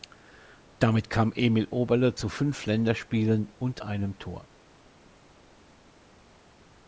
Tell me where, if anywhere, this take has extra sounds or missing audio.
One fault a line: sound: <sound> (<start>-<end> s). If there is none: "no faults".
no faults